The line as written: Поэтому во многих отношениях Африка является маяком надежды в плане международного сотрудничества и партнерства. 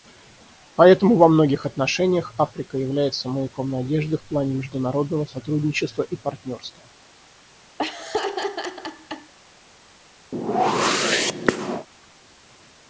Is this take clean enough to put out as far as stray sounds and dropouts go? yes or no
no